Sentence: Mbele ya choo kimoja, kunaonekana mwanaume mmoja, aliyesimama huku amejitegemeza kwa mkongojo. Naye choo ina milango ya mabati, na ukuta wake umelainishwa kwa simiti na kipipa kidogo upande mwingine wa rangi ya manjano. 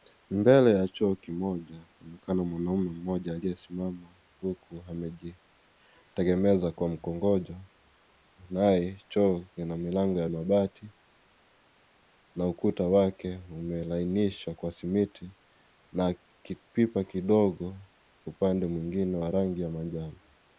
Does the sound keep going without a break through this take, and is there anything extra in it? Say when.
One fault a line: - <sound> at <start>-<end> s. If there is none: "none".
none